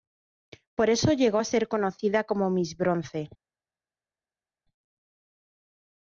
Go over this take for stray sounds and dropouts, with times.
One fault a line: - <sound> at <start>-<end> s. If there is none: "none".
none